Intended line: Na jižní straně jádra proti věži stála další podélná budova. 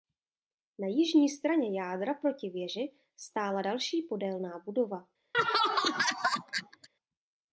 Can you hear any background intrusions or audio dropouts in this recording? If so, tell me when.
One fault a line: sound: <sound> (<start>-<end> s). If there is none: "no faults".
sound: laugh (5.3-6.9 s)